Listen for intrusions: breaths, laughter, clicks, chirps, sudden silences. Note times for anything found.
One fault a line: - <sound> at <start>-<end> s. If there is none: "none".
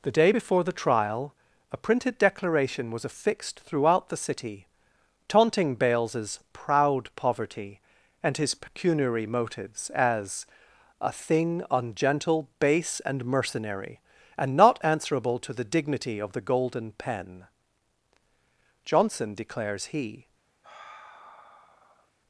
- sigh at 20.6-22.1 s